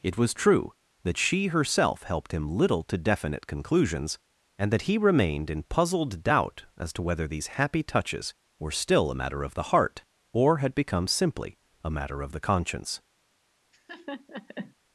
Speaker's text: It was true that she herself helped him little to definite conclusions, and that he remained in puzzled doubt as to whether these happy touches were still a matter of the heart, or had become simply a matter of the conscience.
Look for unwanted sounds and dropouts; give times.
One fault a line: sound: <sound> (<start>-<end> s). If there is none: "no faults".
sound: laugh (13.7-14.7 s)